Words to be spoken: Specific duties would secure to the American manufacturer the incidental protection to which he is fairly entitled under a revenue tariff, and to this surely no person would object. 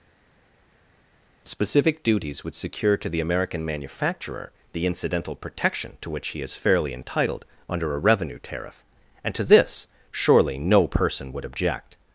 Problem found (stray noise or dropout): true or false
false